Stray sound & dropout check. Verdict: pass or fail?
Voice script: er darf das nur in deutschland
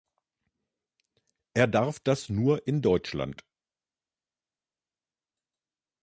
pass